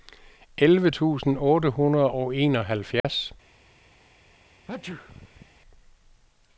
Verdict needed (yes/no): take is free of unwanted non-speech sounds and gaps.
no